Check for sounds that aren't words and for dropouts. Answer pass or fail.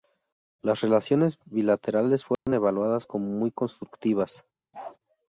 fail